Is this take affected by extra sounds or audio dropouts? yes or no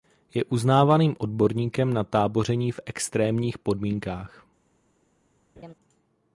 yes